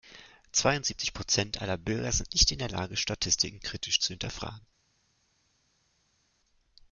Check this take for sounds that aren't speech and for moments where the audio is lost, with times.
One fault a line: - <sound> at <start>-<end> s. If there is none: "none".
none